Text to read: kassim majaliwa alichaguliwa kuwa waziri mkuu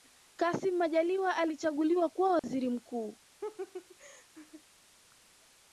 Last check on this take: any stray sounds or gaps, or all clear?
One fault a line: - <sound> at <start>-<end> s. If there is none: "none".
- dropout at 2.4-2.4 s
- laugh at 3.4-4.6 s